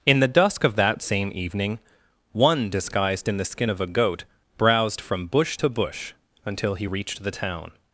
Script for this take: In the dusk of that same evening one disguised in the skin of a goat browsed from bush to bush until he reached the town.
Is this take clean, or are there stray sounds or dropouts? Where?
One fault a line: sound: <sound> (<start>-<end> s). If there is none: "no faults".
no faults